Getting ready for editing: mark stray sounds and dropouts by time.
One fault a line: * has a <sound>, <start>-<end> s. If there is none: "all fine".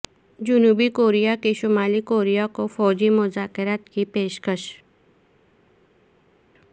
all fine